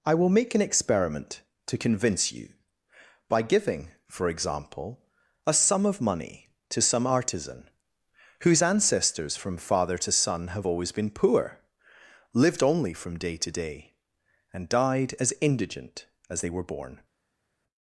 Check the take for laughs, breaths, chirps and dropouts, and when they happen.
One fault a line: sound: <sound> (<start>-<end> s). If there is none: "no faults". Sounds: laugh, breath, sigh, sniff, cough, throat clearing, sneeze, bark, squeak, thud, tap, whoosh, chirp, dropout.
no faults